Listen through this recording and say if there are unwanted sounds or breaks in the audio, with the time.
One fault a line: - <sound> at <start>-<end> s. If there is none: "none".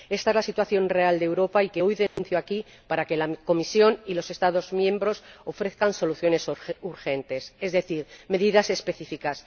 - dropout at 2.1-2.2 s